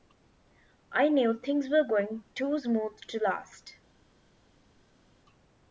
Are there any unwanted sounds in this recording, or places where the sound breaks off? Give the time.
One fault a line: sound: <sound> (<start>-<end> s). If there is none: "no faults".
no faults